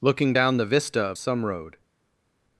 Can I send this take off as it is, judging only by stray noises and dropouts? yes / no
yes